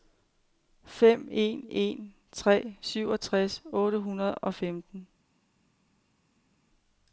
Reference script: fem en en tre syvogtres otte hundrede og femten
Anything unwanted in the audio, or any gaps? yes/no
no